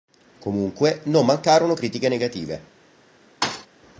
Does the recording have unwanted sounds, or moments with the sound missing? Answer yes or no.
yes